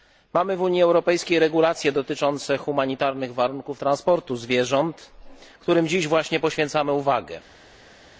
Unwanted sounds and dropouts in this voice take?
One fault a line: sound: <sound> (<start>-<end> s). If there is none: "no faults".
no faults